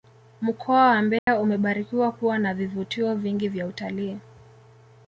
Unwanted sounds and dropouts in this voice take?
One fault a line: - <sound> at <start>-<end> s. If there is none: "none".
- dropout at 1.2-1.3 s